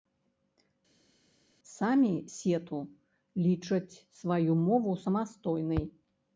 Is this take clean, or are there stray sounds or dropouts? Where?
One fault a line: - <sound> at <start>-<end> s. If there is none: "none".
none